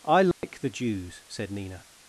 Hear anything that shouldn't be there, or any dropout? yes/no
yes